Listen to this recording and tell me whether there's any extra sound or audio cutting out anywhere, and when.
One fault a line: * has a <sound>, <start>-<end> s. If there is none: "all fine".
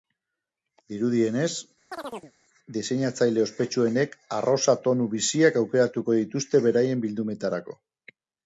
* has a chirp, 1.9-2.3 s